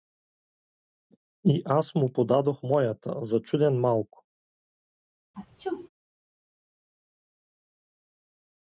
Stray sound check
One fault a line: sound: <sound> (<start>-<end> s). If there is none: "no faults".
sound: sneeze (5.3-5.9 s)